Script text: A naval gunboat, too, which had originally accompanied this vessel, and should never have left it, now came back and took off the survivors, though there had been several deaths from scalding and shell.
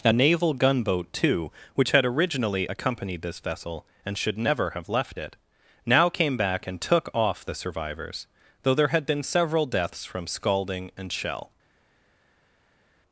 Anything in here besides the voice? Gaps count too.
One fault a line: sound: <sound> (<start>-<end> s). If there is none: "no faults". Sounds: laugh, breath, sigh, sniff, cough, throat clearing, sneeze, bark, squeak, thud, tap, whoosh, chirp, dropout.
no faults